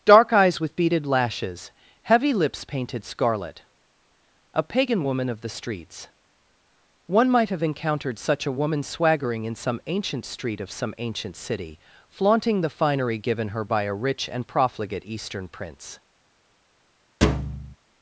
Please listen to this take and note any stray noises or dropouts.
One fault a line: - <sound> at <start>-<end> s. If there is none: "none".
- thud at 17.2-17.8 s